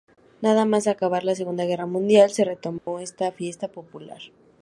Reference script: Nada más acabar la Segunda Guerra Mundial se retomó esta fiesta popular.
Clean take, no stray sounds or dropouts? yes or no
no